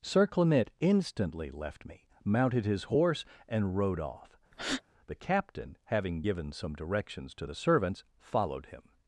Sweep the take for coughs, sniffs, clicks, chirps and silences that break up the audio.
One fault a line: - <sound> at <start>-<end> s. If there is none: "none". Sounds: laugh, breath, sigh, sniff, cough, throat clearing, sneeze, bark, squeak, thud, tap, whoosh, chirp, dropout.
- breath at 4.5-4.8 s